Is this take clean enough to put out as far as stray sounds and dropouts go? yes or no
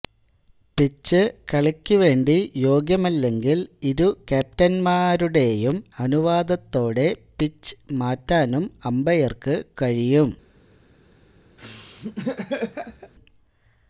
no